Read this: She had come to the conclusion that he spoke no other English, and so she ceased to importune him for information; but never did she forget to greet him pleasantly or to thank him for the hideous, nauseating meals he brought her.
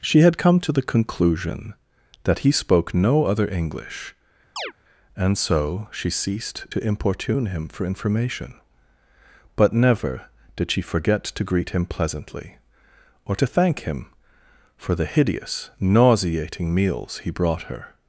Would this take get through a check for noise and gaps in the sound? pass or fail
fail